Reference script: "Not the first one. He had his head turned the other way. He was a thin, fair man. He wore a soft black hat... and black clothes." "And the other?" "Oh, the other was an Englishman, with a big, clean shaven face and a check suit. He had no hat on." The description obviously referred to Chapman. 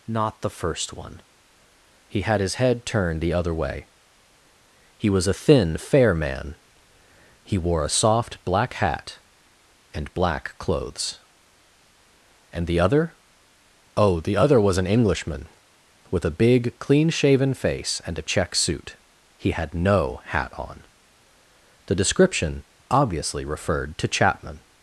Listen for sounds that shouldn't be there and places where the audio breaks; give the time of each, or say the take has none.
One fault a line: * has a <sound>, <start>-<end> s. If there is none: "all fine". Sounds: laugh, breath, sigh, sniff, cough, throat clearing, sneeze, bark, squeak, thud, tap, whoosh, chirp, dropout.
all fine